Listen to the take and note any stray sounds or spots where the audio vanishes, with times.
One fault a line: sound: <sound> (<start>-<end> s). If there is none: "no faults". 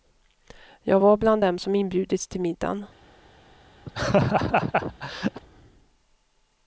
sound: laugh (3.9-5.4 s)